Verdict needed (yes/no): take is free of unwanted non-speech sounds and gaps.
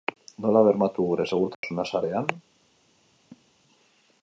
no